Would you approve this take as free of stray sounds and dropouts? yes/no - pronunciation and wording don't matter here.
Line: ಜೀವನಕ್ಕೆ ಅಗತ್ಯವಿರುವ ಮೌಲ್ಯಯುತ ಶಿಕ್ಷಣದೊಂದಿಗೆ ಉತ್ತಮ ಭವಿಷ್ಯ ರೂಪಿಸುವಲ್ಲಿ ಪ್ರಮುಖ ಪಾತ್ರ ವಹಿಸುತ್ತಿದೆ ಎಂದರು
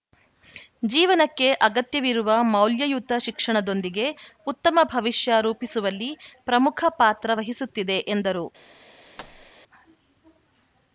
no